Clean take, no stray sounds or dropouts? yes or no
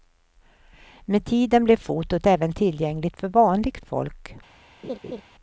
no